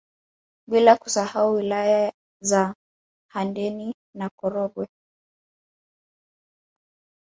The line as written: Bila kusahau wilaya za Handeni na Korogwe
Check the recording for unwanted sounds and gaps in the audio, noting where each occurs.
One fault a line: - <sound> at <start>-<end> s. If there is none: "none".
none